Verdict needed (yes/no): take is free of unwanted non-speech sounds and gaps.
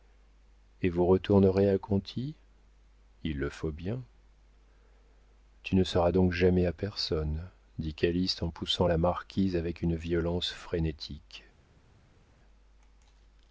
yes